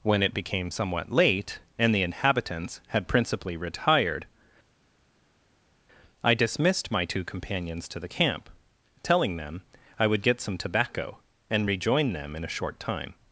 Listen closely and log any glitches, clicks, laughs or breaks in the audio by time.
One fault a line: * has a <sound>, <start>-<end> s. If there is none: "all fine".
all fine